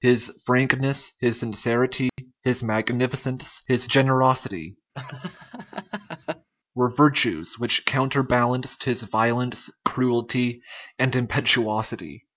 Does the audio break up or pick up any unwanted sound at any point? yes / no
yes